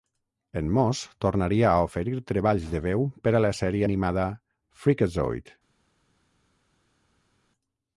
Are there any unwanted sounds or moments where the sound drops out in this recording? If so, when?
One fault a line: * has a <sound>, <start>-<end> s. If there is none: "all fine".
all fine